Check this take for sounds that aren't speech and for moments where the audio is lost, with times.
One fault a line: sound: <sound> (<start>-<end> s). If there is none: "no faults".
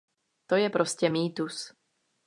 no faults